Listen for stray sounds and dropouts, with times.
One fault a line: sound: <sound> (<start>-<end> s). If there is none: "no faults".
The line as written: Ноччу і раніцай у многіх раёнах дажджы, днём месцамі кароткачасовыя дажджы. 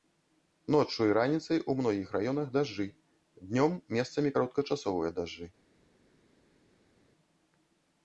no faults